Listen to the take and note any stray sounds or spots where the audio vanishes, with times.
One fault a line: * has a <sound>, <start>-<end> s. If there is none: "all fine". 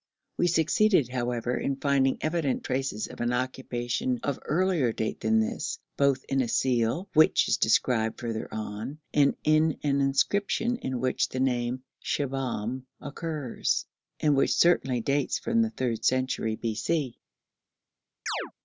* has a chirp, 18.3-18.5 s